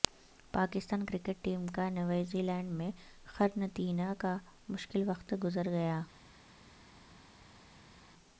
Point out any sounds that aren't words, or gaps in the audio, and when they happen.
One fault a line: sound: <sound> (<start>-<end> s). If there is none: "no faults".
no faults